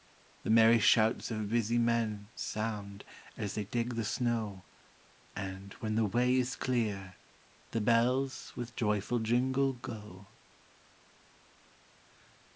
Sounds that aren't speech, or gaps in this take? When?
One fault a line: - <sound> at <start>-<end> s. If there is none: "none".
none